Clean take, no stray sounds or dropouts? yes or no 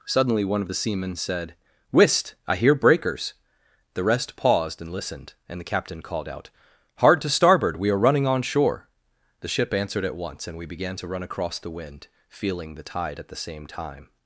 yes